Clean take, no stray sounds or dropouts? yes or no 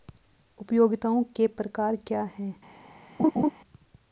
no